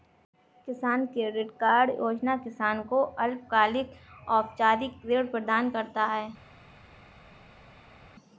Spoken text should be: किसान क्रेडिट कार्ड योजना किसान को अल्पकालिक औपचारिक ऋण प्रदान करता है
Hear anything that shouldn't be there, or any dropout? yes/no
no